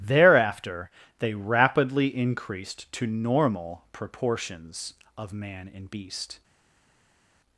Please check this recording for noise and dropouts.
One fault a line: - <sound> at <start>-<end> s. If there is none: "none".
none